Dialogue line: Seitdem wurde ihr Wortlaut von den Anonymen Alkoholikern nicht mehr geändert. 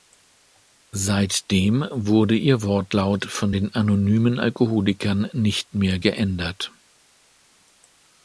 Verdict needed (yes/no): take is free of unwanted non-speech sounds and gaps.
yes